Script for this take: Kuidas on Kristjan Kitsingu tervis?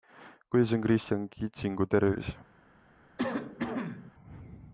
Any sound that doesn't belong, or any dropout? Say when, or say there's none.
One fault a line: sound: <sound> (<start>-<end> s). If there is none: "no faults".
sound: cough (3.2-4.1 s)